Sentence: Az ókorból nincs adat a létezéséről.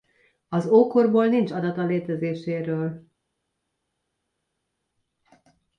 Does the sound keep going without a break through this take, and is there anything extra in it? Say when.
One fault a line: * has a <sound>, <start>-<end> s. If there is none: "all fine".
all fine